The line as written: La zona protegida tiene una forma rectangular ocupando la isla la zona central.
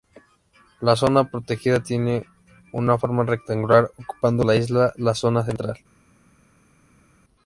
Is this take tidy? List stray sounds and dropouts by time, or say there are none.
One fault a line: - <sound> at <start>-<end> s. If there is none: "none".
none